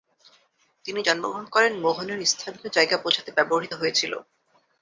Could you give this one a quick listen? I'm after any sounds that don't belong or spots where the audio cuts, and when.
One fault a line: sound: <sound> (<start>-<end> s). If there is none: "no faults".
no faults